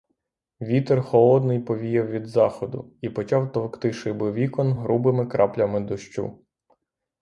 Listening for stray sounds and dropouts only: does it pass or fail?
pass